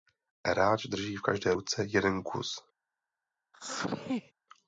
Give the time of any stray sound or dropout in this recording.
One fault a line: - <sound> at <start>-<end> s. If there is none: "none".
- sneeze at 3.5-4.3 s